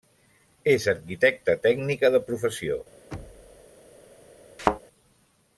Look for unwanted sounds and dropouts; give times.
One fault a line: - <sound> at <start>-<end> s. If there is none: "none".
- thud at 3.1-3.7 s
- thud at 4.6-4.8 s